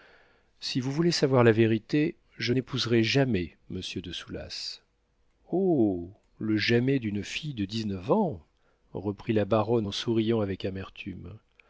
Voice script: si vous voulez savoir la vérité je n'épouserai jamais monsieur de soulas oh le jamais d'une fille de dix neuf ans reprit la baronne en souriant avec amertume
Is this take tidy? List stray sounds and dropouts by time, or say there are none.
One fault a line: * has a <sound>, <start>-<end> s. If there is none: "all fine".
all fine